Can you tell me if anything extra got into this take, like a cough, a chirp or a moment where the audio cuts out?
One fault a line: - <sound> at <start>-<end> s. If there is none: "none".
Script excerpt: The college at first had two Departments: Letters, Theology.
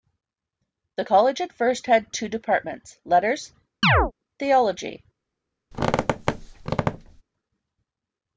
- chirp at 3.8-4.1 s
- squeak at 5.7-7.2 s